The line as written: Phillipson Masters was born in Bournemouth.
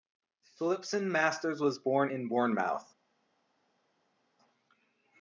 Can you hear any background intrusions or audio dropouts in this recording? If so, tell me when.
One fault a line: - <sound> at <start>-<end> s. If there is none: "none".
none